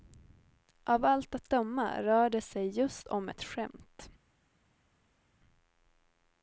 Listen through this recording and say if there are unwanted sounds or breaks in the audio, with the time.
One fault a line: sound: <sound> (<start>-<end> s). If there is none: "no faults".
no faults